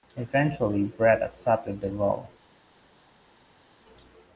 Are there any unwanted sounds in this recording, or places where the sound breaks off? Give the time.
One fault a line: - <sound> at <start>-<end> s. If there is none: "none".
none